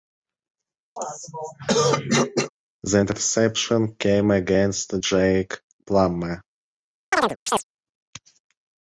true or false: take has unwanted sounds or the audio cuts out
true